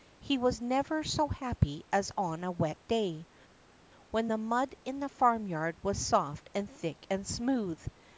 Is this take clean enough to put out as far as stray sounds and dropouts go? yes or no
yes